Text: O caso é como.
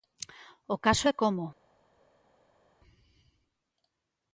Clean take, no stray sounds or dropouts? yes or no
yes